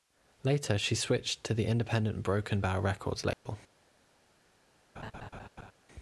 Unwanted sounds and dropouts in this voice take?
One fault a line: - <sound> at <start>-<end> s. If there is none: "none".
- dropout at 3.3-3.5 s
- laugh at 5.0-5.7 s